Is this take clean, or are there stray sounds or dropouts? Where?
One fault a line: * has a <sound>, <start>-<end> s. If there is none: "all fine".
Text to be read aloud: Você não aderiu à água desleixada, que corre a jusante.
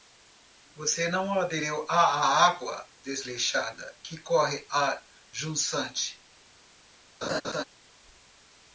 * has a laugh, 7.2-7.6 s